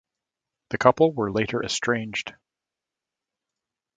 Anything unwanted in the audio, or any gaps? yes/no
no